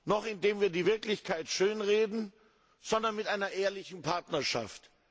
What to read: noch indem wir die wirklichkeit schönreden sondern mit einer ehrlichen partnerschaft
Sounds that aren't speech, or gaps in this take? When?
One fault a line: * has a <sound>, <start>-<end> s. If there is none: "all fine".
all fine